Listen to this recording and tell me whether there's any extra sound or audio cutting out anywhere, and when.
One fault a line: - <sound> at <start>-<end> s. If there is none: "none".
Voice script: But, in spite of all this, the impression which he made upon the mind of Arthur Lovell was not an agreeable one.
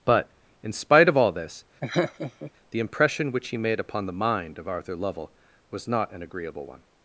- laugh at 1.8-2.5 s